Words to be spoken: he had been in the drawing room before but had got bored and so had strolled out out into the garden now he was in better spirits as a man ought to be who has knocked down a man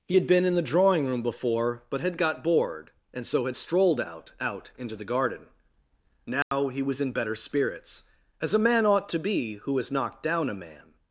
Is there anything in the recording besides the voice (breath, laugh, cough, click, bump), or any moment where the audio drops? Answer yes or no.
yes